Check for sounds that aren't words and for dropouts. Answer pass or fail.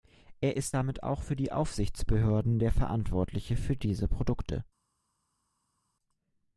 pass